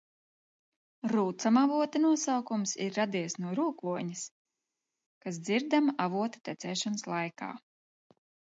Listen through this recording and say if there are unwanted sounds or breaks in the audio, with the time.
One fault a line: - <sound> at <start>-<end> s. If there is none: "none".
none